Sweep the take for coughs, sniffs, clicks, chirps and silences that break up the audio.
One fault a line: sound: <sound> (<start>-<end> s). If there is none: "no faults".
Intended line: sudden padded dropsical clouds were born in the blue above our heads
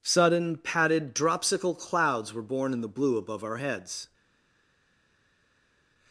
no faults